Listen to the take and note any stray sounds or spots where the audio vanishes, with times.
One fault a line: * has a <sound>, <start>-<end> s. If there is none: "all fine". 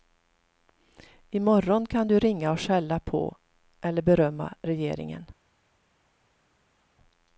all fine